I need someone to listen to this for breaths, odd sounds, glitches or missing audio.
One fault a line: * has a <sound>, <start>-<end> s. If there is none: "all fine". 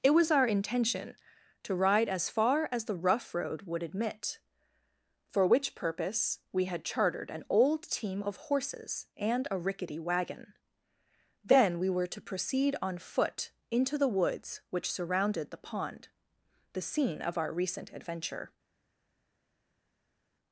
all fine